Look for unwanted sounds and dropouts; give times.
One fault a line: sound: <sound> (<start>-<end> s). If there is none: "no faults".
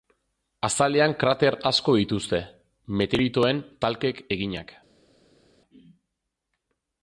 no faults